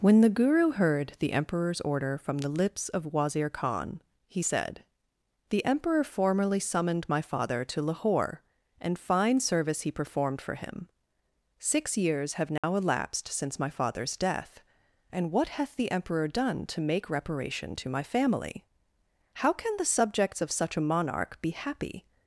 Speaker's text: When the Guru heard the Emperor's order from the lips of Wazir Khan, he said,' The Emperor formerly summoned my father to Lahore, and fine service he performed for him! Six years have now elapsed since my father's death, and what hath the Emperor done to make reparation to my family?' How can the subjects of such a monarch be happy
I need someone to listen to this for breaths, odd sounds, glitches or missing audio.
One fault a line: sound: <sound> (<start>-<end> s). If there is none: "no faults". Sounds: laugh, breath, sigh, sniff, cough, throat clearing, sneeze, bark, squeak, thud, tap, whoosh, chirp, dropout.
sound: dropout (12.6-12.6 s)